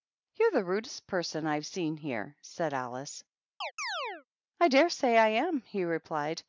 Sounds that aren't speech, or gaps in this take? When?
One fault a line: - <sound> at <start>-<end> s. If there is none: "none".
- chirp at 3.6-4.3 s